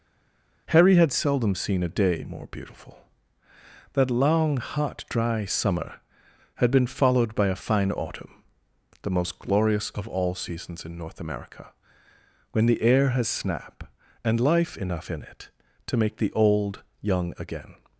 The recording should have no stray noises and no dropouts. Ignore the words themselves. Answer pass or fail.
pass